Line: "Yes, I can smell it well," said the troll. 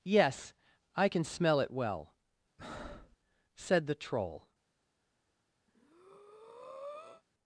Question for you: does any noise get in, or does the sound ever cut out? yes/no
yes